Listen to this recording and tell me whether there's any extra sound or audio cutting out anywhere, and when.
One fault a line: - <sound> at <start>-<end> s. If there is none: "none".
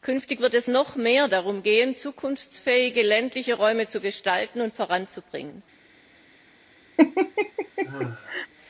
- laugh at 7.0-8.5 s